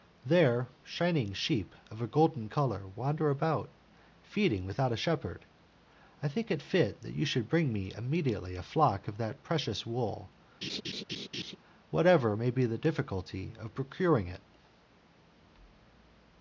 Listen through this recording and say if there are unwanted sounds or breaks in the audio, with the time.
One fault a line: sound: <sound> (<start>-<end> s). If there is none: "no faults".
sound: laugh (10.6-11.6 s)